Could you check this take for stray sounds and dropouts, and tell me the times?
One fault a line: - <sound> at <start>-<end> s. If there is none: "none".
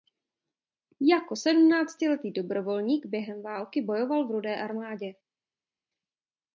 none